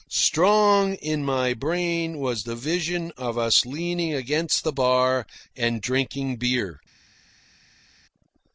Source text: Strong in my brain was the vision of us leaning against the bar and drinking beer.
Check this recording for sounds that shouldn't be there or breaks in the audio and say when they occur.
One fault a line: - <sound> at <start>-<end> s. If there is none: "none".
none